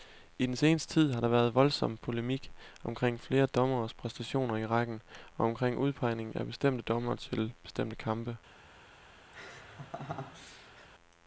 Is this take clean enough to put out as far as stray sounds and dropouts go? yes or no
no